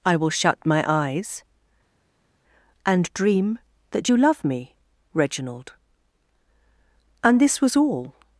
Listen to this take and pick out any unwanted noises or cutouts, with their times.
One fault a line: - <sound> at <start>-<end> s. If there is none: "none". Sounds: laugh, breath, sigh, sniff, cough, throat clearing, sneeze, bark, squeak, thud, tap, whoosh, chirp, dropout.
none